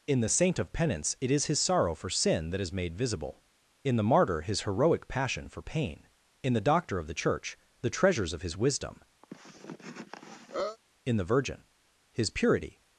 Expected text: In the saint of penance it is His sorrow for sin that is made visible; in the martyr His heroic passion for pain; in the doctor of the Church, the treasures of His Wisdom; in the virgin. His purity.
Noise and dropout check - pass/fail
fail